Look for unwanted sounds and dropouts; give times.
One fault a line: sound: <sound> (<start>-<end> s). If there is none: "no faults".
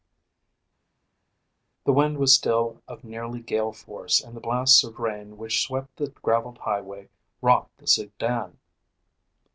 no faults